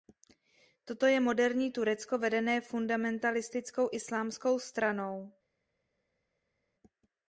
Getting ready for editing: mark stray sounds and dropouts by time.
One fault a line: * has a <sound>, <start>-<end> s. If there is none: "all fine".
all fine